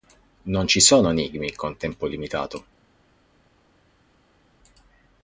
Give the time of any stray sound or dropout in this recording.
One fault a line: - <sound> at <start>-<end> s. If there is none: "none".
none